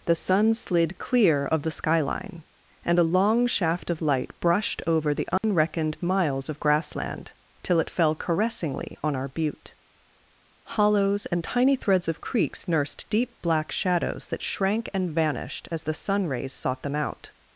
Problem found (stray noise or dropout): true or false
true